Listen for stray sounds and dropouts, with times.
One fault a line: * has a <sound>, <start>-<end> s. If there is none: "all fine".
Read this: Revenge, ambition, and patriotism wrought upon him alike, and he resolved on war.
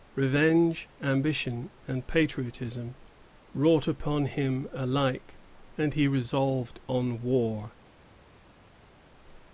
all fine